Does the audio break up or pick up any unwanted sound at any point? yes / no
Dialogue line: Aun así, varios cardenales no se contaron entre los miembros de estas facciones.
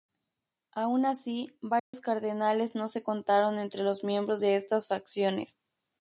yes